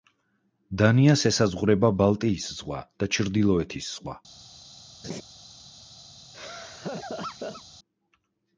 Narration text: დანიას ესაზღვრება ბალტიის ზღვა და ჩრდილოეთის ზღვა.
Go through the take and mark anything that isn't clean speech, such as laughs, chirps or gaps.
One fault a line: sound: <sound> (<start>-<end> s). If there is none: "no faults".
sound: laugh (5.0-5.2 s)
sound: laugh (6.3-7.6 s)